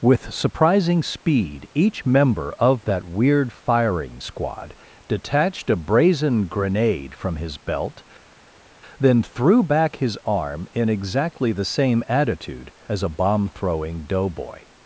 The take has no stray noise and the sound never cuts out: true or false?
true